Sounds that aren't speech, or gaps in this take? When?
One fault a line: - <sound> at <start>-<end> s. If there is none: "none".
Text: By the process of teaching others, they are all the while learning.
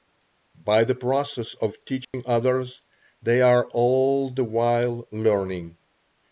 - dropout at 2.0-2.1 s